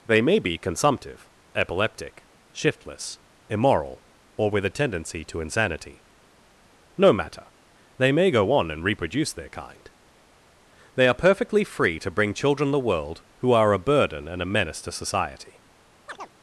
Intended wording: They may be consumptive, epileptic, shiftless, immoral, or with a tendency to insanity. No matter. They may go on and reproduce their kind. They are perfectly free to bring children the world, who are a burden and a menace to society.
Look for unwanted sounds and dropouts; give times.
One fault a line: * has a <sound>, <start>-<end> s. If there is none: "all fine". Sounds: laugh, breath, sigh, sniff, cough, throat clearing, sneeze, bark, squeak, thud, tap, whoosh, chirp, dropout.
* has a chirp, 16.1-16.3 s